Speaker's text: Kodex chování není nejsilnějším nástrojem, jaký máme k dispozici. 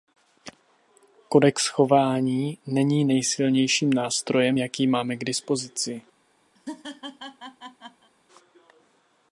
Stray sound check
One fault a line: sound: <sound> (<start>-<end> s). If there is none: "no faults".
sound: laugh (6.5-8.1 s)